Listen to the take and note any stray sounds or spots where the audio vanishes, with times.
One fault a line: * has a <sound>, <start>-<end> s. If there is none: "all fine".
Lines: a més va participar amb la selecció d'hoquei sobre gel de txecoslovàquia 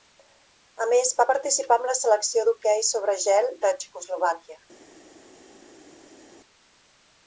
all fine